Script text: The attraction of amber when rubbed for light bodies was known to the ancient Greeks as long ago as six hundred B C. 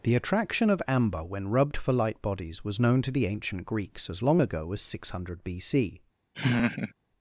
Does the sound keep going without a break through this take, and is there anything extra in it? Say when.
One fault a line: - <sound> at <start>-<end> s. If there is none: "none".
- laugh at 6.3-6.9 s